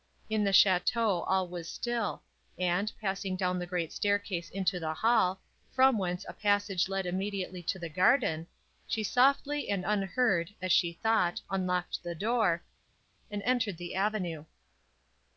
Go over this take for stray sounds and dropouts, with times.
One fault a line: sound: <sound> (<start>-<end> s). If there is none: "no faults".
no faults